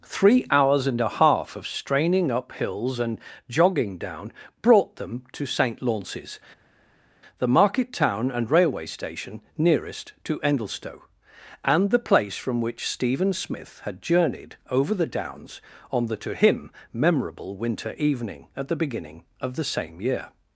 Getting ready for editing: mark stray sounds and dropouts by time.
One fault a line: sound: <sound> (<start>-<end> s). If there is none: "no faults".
no faults